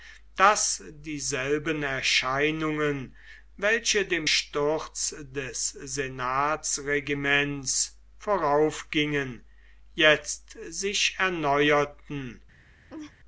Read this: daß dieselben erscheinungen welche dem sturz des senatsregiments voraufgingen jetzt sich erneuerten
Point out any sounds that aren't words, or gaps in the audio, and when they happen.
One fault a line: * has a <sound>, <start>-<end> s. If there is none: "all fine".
* has a laugh, 12.9-13.1 s